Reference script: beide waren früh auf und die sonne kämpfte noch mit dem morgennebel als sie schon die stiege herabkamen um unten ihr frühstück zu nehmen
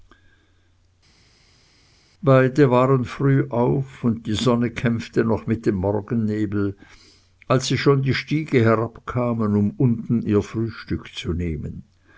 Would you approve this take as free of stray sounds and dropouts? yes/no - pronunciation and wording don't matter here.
yes